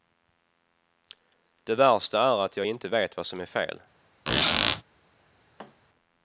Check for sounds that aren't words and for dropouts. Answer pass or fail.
fail